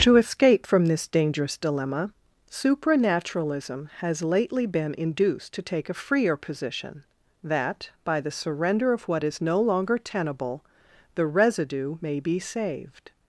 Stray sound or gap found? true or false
false